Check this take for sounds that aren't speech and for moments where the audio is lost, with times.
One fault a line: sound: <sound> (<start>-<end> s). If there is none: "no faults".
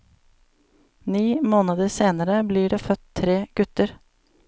no faults